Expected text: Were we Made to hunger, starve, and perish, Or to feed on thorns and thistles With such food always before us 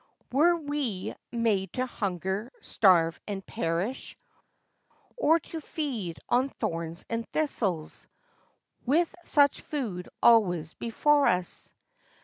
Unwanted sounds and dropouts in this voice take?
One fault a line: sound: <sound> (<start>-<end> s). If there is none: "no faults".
no faults